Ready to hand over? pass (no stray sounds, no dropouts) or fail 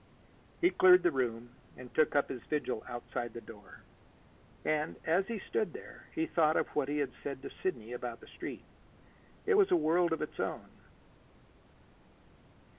pass